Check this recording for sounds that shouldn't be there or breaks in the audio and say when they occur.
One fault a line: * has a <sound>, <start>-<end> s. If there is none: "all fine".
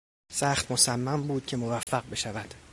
* has a dropout, 1.8-1.9 s